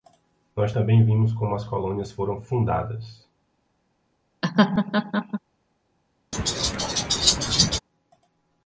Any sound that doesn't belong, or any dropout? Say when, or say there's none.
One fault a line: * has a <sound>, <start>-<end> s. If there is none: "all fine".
* has a laugh, 4.4-5.4 s
* has a laugh, 6.3-7.8 s